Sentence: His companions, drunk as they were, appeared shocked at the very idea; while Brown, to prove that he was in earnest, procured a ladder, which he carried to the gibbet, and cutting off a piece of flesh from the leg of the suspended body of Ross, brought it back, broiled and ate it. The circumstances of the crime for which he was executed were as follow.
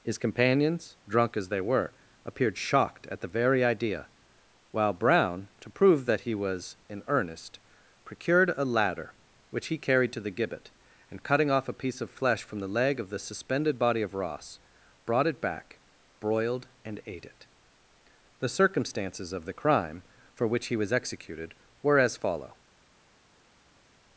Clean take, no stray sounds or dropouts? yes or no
yes